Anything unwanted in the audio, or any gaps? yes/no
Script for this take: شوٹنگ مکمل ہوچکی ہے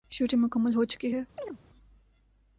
yes